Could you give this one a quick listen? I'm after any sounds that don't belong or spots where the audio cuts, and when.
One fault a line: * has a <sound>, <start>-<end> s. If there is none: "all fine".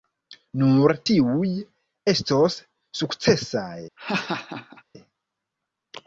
* has a laugh, 4.0-4.8 s